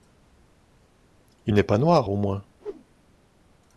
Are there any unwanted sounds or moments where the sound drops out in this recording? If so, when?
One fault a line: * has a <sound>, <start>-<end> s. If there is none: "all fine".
* has a whoosh, 2.6-2.8 s